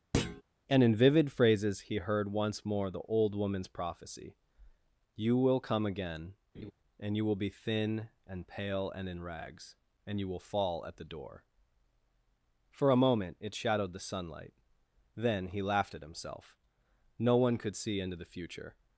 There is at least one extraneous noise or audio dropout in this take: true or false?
true